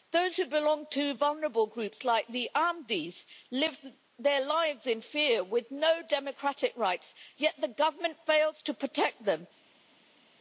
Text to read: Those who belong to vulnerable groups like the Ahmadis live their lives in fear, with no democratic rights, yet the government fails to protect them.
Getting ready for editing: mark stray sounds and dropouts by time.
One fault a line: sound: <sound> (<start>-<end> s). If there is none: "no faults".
no faults